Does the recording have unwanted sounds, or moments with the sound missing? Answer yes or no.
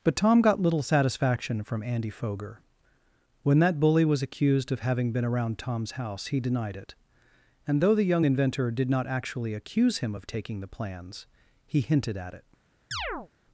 yes